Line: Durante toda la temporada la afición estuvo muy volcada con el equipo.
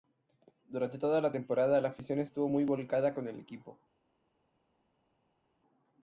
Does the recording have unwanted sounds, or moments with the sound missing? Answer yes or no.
no